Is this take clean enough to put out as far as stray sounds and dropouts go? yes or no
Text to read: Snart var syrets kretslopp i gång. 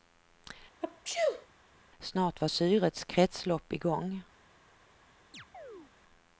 no